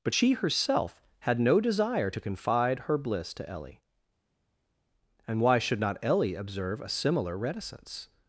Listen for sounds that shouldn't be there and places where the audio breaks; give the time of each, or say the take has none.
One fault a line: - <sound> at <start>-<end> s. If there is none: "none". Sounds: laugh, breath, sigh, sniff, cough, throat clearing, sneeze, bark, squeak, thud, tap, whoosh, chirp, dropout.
none